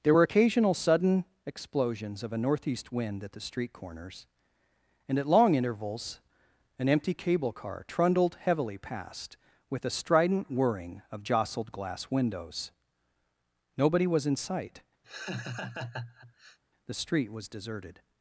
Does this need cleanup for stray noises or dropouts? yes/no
yes